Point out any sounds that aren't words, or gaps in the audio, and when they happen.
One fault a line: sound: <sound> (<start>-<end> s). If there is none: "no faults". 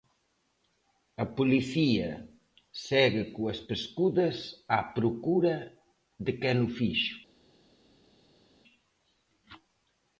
no faults